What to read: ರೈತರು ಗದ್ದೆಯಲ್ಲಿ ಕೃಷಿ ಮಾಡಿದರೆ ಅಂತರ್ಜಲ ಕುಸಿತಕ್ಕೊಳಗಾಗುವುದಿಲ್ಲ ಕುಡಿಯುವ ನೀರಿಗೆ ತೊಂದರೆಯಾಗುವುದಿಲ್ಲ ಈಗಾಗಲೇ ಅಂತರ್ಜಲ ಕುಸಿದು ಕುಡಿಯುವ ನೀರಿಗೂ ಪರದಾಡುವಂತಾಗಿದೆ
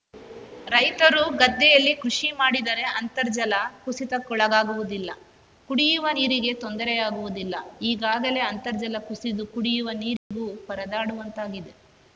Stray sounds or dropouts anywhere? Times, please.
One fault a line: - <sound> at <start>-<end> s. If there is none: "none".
- dropout at 10.2-10.3 s